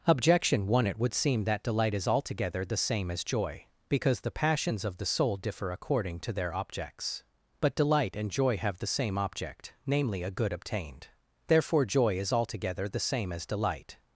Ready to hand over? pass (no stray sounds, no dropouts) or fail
pass